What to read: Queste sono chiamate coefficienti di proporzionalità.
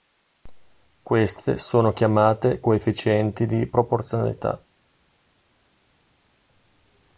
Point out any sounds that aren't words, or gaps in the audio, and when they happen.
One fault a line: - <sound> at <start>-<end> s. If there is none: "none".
none